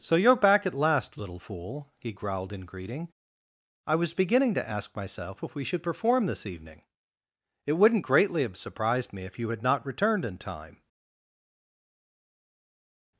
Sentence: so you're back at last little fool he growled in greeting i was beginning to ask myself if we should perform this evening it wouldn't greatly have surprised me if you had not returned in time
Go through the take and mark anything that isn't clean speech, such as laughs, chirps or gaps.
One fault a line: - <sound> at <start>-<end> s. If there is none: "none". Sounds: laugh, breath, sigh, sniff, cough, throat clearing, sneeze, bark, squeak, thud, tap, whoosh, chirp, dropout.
none